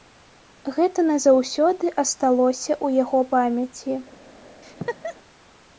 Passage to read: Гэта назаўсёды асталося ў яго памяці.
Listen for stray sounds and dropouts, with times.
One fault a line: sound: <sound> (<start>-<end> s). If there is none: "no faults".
sound: laugh (4.6-5.2 s)